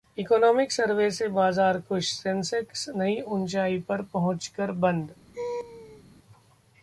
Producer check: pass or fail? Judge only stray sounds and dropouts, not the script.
fail